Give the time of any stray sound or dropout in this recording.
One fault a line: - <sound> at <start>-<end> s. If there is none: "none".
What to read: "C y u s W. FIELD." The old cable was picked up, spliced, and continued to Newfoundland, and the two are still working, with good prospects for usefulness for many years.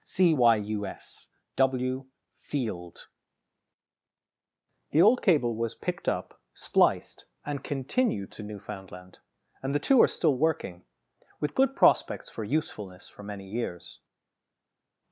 none